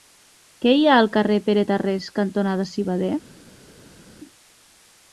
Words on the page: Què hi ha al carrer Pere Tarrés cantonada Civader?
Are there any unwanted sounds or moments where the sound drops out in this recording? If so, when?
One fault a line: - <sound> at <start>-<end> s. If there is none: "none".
none